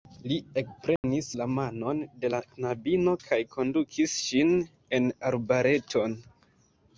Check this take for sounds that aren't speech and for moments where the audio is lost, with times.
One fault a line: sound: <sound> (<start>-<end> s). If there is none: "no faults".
sound: dropout (1.0-1.0 s)